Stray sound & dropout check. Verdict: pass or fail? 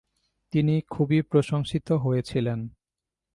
pass